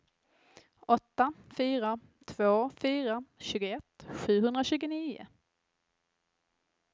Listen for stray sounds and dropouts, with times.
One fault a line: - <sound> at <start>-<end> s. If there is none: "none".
none